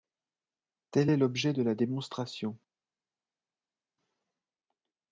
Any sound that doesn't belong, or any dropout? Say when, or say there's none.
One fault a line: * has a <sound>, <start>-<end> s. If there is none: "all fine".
all fine